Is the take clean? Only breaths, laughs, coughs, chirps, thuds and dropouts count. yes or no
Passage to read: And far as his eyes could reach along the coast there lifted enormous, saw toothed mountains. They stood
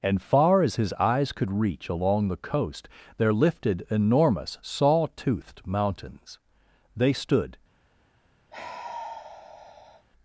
no